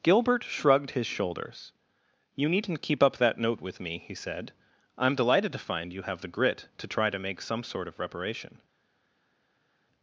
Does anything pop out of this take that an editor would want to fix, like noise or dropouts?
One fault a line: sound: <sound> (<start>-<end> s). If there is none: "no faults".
no faults